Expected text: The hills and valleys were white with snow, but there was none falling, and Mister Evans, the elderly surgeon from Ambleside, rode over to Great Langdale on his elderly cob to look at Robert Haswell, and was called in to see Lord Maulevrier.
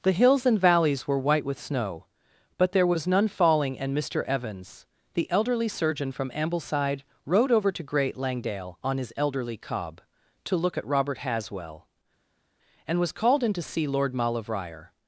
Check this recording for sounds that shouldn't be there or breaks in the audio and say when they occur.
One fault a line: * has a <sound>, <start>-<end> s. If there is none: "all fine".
all fine